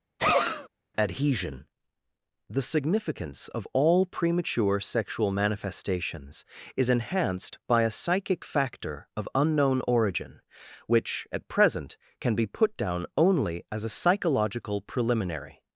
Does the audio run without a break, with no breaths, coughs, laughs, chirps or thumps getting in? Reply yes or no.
no